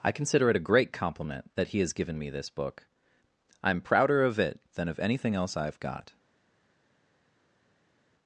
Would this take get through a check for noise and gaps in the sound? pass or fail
pass